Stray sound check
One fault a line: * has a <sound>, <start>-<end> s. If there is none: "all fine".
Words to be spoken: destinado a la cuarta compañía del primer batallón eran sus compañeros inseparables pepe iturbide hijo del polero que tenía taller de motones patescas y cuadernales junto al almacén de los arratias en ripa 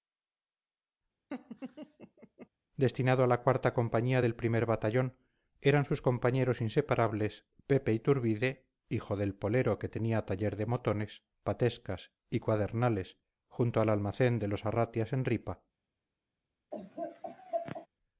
* has a laugh, 1.3-2.5 s
* has a laugh, 16.7-17.9 s